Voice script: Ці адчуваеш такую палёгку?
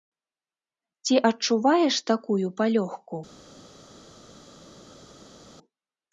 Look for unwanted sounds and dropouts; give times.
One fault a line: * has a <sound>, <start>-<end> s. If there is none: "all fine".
all fine